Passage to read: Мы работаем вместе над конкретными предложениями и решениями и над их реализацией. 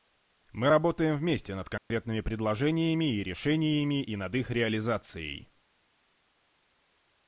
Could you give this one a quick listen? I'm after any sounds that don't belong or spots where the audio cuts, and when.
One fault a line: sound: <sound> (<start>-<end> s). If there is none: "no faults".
sound: dropout (1.8-1.9 s)